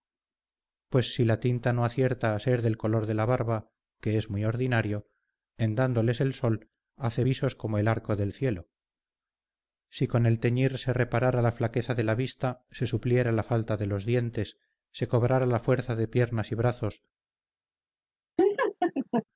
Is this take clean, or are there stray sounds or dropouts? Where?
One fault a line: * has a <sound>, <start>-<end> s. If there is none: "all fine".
* has a laugh, 18.4-19.2 s